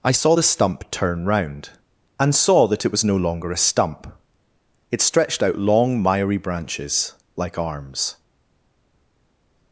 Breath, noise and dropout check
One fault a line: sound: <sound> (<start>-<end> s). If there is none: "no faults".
no faults